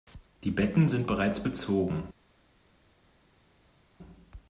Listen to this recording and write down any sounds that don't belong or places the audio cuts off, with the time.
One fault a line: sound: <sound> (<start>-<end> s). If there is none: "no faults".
no faults